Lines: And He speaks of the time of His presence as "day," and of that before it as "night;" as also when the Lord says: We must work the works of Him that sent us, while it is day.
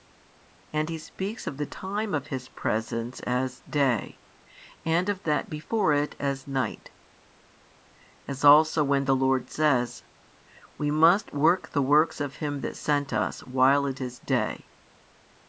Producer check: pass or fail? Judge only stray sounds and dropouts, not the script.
pass